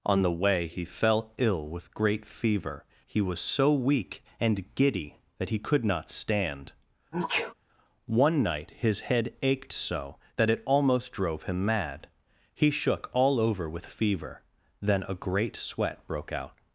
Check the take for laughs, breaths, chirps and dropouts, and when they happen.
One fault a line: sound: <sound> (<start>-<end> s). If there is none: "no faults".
sound: sneeze (7.1-7.5 s)